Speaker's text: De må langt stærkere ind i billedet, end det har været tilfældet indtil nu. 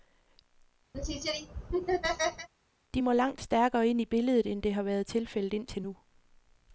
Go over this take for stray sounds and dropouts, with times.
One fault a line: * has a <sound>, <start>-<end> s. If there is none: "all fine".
* has a laugh, 0.9-2.5 s